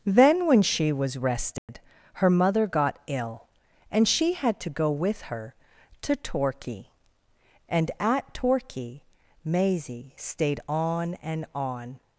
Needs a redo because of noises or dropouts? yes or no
yes